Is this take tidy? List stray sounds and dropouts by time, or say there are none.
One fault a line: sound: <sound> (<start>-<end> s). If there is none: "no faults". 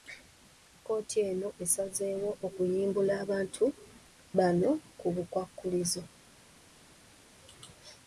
no faults